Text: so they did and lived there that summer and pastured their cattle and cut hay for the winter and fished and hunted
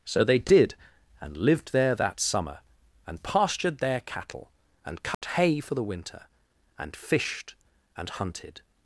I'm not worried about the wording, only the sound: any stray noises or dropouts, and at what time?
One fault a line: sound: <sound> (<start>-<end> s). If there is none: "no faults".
sound: dropout (5.1-5.2 s)